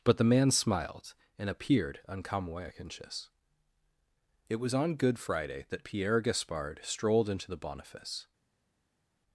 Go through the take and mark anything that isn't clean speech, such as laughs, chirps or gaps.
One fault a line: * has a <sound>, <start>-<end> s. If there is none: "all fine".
all fine